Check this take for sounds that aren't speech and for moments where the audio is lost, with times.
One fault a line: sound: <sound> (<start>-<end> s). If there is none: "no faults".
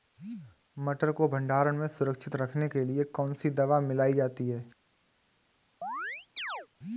sound: chirp (5.8-6.7 s)